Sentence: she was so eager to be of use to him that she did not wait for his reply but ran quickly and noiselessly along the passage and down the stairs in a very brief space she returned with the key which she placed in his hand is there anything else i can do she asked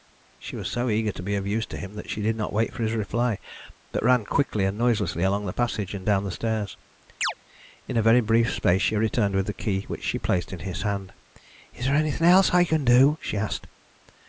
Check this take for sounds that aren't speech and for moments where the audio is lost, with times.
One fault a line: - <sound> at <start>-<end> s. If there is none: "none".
- chirp at 7.2-7.3 s